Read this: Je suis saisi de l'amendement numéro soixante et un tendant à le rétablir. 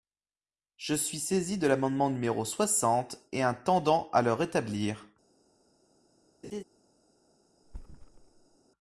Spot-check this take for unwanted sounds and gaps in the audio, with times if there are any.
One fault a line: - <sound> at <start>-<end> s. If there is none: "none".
- laugh at 6.4-6.6 s
- thud at 7.6-8.6 s